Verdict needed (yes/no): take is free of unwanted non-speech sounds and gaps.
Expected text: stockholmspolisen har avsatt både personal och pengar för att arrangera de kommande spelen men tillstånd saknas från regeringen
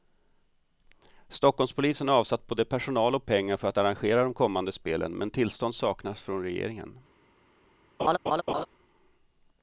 no